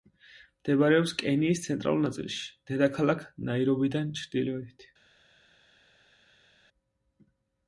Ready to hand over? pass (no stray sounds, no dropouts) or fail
pass